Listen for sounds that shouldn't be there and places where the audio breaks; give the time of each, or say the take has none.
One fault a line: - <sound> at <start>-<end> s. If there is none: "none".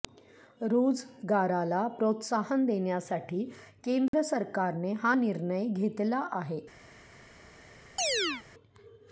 - dropout at 4.1-4.1 s
- chirp at 8.0-8.4 s